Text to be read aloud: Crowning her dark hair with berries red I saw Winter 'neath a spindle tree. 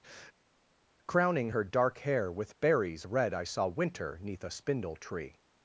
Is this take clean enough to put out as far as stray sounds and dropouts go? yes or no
yes